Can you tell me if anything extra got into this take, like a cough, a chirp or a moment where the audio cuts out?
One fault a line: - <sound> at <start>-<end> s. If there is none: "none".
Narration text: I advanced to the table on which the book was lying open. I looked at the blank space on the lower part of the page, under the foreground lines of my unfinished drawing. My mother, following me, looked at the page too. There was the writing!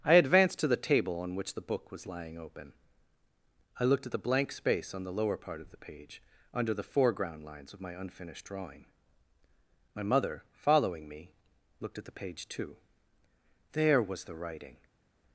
none